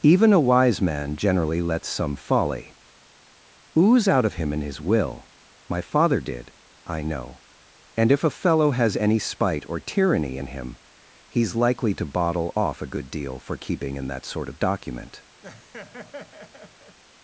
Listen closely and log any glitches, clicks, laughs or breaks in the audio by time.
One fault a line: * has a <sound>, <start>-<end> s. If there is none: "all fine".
* has a laugh, 15.4-17.0 s